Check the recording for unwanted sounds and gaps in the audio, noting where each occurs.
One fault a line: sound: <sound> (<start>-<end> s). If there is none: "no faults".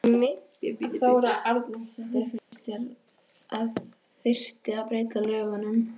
sound: dropout (2.4-2.5 s)